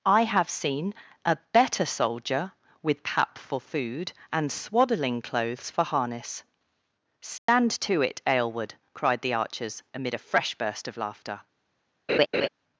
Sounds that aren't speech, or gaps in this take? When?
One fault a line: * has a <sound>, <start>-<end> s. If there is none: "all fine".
* has a dropout, 7.4-7.5 s
* has a laugh, 12.1-12.5 s